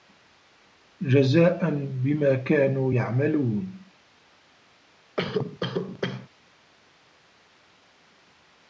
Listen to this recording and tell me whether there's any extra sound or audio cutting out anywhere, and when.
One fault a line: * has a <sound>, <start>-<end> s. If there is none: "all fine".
* has a cough, 5.2-6.3 s